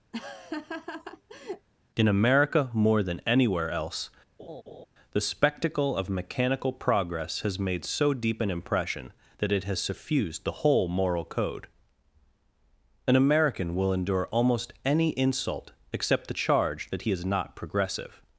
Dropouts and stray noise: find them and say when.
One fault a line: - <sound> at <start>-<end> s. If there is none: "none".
- laugh at 0.1-1.7 s
- laugh at 4.4-4.9 s